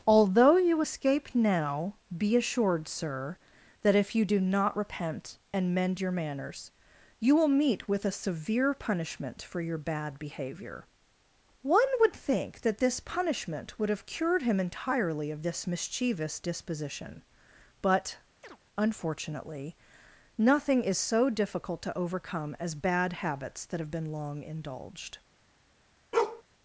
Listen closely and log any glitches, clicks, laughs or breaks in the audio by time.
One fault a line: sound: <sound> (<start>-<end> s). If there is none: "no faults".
sound: chirp (18.4-18.6 s)
sound: bark (26.1-26.4 s)